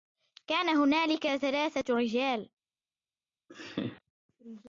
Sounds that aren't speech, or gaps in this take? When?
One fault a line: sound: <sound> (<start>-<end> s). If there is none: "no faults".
sound: laugh (3.5-4.0 s)